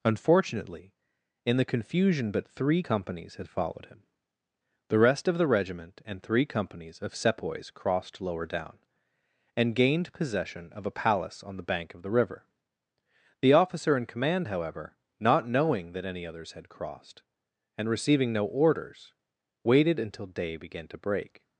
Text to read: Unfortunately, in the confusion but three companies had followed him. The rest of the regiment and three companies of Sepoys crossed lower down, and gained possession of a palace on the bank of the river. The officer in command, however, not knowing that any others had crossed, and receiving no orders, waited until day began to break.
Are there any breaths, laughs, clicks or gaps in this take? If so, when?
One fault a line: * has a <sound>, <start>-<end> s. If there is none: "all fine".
all fine